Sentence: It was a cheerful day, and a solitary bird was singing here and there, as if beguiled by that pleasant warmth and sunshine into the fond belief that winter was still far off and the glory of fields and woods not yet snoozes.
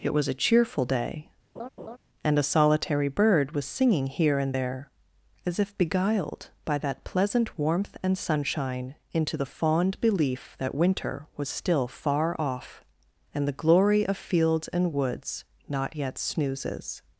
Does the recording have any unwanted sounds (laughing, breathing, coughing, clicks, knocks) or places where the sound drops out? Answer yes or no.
yes